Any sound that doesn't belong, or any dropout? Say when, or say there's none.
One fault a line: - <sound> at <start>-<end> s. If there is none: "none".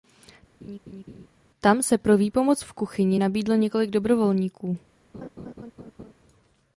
- laugh at 0.6-1.3 s
- laugh at 5.1-6.1 s